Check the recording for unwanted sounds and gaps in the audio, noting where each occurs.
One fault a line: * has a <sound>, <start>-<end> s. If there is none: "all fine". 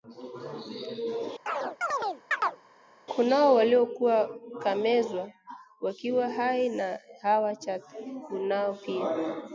* has a chirp, 1.5-2.6 s